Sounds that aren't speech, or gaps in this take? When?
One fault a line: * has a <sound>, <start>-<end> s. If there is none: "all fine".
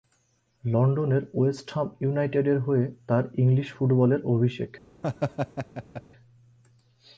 * has a laugh, 5.0-6.0 s